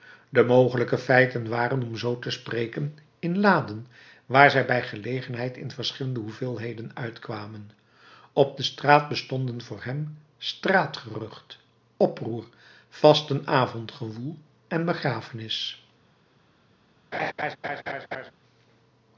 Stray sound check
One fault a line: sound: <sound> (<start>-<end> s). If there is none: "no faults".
sound: laugh (17.1-18.3 s)